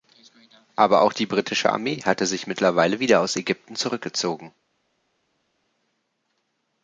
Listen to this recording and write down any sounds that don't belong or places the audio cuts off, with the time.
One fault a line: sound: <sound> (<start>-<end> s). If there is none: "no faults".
no faults